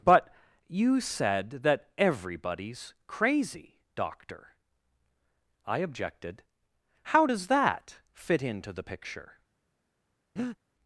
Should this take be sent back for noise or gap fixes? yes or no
yes